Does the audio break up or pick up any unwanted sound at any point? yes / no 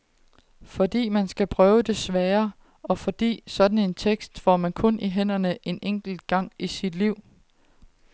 no